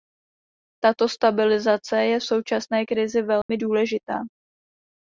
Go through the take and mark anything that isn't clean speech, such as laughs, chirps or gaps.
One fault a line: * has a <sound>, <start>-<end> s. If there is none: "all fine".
* has a dropout, 3.4-3.5 s